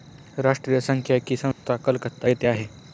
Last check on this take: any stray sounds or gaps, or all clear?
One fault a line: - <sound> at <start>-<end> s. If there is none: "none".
- dropout at 1.5-1.6 s